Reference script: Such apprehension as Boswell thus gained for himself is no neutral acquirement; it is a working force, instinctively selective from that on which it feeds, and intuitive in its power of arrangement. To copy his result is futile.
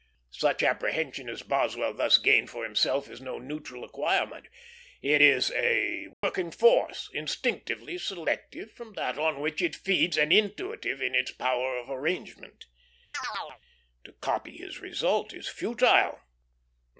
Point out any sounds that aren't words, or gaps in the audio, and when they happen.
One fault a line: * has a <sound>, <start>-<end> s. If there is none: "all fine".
* has a dropout, 6.1-6.2 s
* has a chirp, 13.1-13.6 s